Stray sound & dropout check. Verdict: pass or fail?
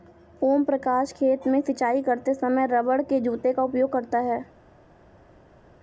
pass